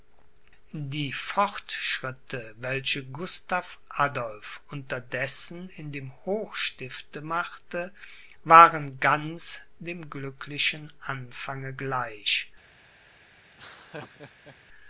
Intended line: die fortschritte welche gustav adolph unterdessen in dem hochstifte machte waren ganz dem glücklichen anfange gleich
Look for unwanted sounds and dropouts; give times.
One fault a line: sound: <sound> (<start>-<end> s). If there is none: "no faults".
sound: laugh (13.5-14.6 s)